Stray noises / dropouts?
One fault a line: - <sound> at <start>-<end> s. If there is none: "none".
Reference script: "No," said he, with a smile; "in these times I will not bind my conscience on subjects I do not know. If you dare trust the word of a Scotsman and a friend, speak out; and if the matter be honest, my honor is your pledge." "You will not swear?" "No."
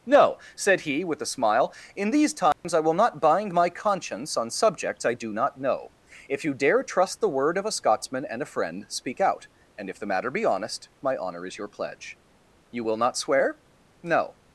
- dropout at 2.5-2.6 s